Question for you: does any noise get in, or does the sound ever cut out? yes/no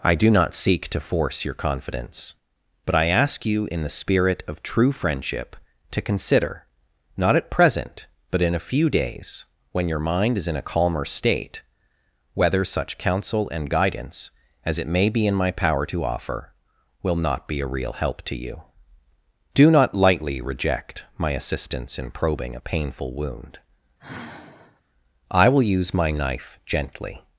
yes